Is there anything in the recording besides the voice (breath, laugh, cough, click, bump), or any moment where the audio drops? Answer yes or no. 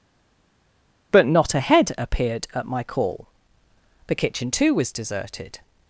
no